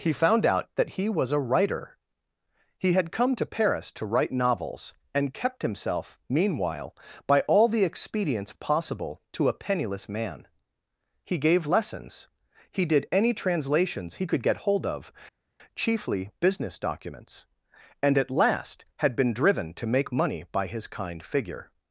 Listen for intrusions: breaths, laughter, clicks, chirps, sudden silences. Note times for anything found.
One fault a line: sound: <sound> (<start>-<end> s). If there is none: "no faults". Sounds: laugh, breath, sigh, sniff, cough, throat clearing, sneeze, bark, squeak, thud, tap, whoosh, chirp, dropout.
no faults